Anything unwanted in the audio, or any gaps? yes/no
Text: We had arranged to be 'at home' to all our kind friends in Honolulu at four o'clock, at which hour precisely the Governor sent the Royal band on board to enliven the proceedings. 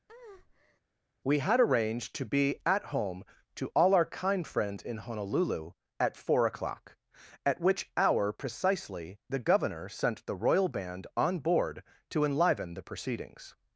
yes